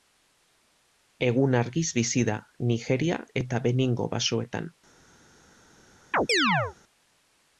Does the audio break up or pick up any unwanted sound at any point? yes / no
yes